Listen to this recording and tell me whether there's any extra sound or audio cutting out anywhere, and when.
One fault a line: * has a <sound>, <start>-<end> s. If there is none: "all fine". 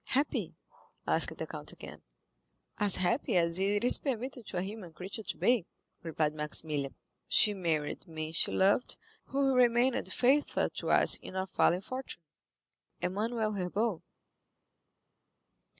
all fine